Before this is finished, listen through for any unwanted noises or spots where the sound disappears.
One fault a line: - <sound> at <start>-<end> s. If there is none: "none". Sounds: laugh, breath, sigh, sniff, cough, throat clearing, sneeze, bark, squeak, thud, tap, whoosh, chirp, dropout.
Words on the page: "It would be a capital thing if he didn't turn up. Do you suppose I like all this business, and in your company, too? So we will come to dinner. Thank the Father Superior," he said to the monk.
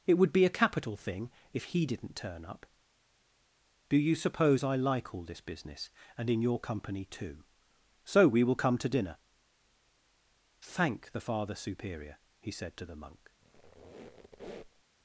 - squeak at 13.4-14.8 s